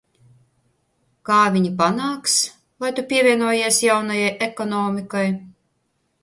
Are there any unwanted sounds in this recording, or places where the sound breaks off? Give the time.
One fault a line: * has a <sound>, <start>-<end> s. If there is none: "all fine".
all fine